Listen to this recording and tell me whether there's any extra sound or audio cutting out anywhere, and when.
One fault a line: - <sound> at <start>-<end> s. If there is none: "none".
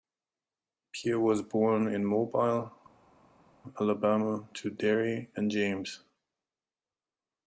none